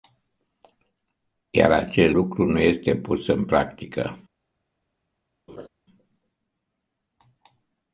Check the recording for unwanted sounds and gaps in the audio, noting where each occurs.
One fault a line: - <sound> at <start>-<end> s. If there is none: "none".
- laugh at 5.5-5.7 s